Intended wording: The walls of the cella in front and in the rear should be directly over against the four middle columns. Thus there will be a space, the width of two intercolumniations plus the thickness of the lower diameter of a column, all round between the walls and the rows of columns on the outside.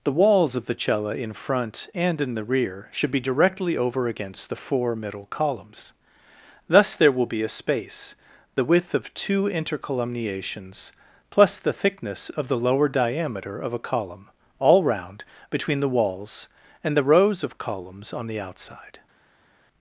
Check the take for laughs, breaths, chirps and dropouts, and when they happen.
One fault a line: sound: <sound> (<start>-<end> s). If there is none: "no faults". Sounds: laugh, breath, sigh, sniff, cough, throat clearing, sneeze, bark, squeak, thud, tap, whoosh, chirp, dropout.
no faults